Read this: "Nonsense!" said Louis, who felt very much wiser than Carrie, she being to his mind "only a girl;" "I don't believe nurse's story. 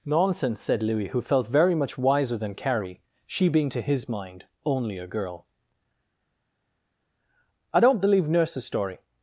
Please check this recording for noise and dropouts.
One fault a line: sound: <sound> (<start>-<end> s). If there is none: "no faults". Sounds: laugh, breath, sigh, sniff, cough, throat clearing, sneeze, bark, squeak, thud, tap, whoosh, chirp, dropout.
no faults